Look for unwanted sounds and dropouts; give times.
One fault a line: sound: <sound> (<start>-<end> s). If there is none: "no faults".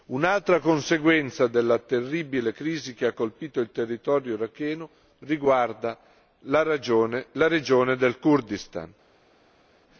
no faults